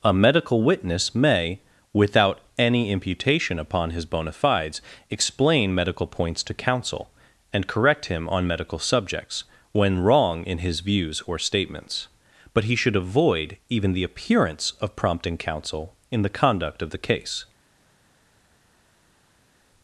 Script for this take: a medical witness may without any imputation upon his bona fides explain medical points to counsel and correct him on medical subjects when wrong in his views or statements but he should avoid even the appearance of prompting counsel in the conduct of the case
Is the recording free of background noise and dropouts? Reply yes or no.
yes